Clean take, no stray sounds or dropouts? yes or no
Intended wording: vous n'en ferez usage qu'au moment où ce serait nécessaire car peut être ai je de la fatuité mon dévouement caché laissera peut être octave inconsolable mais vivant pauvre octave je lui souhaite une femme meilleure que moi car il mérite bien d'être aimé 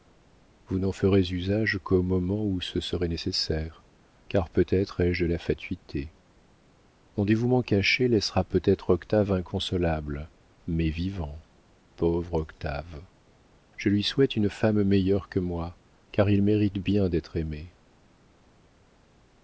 yes